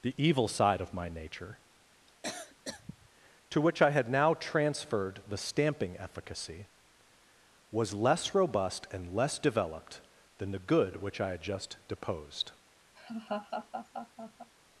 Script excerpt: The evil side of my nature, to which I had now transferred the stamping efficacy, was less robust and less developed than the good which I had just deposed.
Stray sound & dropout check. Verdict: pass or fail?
fail